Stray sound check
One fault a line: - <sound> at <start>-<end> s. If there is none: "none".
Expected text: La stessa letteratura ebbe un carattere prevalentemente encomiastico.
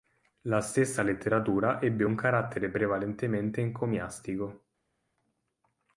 none